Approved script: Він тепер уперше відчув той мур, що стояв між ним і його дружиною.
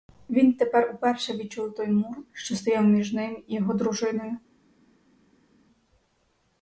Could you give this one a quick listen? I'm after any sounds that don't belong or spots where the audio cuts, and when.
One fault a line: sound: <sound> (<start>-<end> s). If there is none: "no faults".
no faults